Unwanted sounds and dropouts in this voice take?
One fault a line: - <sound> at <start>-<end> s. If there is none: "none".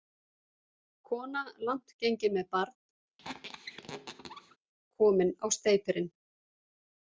- squeak at 3.2-4.6 s